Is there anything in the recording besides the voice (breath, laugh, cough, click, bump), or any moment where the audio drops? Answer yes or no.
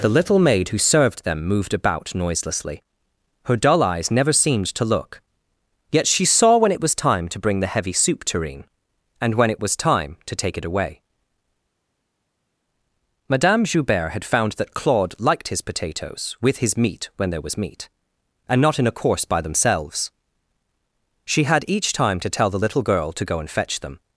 no